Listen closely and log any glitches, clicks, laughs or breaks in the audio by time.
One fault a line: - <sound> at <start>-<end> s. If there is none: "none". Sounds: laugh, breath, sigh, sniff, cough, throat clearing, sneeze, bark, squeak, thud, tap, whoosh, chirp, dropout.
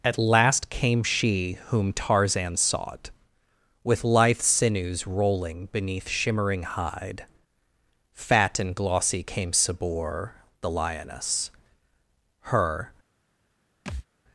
- thud at 13.9-14.1 s